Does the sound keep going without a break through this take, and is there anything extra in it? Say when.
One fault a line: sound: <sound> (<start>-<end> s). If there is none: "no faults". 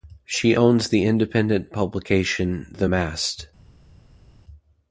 no faults